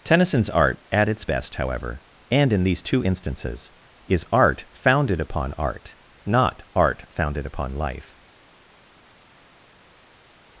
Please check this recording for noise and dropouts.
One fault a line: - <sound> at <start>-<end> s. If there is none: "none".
none